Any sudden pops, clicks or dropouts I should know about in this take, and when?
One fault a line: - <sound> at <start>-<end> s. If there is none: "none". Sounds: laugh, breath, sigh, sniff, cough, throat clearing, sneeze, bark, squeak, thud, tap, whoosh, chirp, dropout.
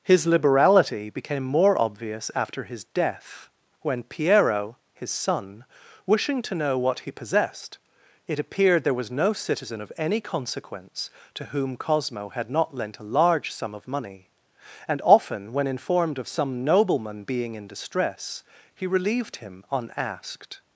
none